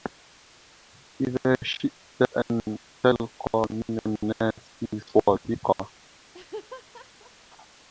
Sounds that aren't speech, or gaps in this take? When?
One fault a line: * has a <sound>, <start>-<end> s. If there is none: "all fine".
* has a laugh, 6.3-7.3 s